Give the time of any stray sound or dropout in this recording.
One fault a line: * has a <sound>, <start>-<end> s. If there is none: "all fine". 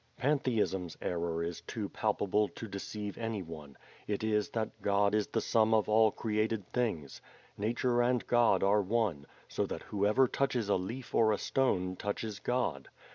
all fine